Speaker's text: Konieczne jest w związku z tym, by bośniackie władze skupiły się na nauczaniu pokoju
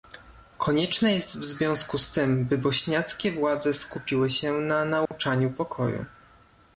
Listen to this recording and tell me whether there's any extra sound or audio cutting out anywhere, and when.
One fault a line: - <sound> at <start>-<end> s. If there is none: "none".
- dropout at 5.1-5.1 s